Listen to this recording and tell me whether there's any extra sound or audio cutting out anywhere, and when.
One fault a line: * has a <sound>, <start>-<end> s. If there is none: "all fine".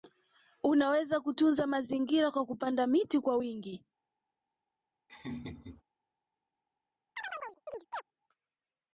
* has a laugh, 5.1-5.8 s
* has a chirp, 7.2-8.0 s